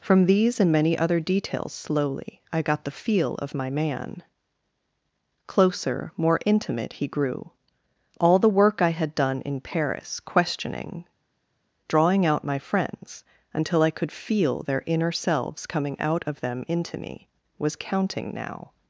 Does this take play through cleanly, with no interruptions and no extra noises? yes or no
yes